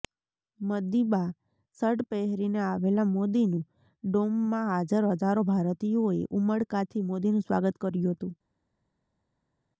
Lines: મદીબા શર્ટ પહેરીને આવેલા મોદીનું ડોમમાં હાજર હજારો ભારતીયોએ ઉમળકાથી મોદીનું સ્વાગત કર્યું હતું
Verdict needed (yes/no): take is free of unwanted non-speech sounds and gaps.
yes